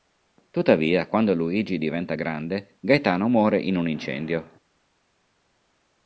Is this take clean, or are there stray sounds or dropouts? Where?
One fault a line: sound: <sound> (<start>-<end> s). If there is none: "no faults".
no faults